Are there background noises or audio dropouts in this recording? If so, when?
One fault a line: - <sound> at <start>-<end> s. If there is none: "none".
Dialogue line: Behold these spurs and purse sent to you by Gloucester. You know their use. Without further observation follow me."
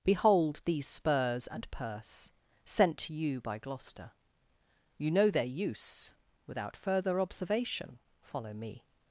none